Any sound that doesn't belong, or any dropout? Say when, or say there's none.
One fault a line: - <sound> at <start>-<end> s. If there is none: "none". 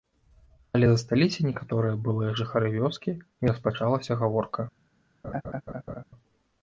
- laugh at 5.2-6.0 s